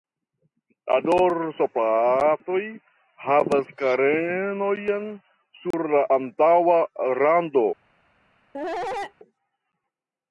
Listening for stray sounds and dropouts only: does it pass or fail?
fail